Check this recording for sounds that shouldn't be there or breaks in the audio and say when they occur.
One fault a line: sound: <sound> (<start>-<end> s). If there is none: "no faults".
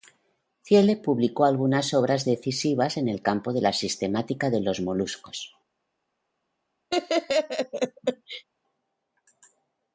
sound: laugh (6.9-8.4 s)